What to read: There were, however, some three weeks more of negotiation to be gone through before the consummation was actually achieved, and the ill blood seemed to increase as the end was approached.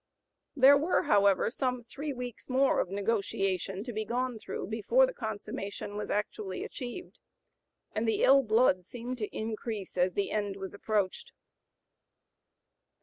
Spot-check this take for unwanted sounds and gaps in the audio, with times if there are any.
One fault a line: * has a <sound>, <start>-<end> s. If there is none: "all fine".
all fine